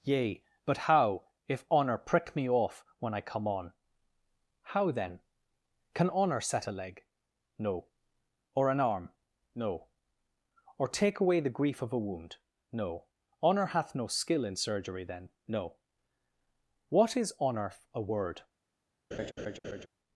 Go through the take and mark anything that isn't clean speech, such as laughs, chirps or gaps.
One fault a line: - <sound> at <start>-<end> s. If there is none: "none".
- laugh at 19.1-19.9 s